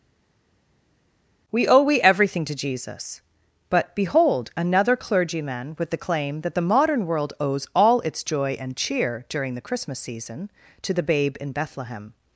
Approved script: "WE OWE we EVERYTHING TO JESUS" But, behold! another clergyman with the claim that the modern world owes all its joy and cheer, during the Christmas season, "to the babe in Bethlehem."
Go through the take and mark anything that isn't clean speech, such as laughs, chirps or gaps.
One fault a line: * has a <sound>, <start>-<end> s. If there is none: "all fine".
all fine